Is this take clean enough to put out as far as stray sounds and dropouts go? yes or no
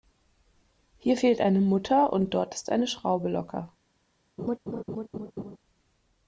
no